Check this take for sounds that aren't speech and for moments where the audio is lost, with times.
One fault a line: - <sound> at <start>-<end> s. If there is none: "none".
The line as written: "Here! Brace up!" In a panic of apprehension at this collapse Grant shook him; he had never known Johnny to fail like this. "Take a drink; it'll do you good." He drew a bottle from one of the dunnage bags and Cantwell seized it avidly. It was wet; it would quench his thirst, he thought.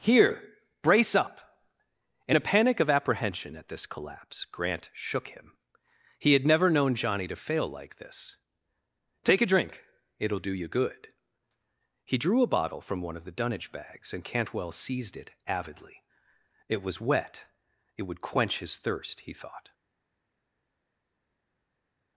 none